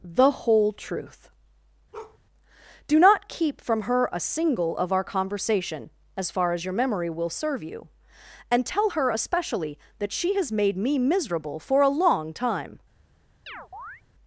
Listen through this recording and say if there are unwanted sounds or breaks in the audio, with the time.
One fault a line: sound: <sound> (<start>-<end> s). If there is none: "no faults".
sound: bark (1.9-2.2 s)
sound: chirp (13.5-14.0 s)